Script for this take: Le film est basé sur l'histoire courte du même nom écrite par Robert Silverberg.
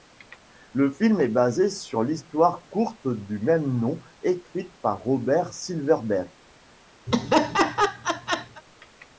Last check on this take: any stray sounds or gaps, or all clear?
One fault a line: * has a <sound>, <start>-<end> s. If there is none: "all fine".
* has a laugh, 7.1-8.6 s